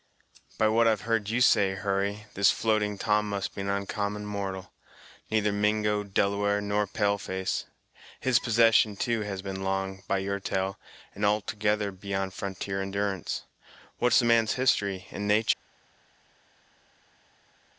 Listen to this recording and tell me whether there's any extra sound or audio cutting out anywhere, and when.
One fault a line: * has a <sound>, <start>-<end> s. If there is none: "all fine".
all fine